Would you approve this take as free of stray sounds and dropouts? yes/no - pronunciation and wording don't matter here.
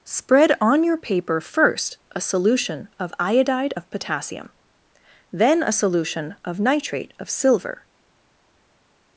yes